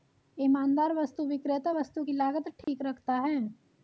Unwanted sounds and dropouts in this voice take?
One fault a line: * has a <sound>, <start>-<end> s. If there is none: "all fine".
* has a dropout, 2.6-2.7 s